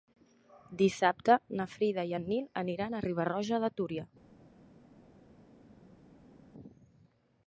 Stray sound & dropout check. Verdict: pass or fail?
pass